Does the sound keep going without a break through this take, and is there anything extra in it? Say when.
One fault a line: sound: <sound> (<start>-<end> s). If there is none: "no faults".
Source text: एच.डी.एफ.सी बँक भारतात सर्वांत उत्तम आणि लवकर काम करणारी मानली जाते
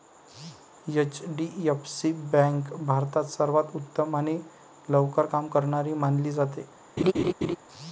sound: laugh (7.0-7.6 s)